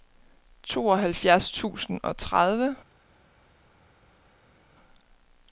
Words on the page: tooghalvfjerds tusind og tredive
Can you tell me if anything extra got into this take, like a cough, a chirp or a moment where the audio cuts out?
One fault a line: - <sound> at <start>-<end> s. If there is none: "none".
none